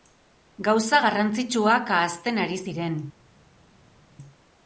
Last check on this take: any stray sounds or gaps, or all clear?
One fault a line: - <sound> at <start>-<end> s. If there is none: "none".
none